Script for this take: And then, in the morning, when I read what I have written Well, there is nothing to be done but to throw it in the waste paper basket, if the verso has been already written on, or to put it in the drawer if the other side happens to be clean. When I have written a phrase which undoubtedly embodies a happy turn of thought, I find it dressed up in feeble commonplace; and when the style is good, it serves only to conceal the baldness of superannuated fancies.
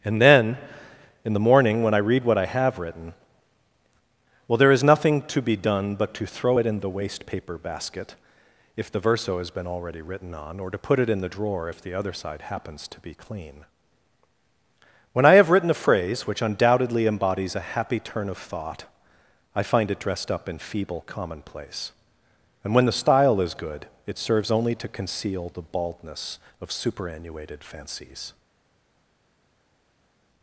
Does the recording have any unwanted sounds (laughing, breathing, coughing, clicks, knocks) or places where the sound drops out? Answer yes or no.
no